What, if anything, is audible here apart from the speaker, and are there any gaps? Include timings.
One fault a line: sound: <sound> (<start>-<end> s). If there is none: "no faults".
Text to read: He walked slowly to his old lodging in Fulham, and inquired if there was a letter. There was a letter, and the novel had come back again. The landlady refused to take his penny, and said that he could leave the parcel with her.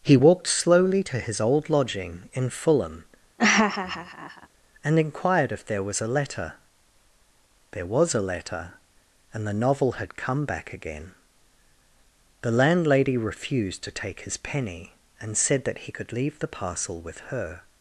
sound: laugh (3.4-4.5 s)